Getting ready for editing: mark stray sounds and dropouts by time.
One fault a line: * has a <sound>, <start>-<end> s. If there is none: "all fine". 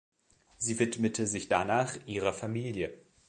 all fine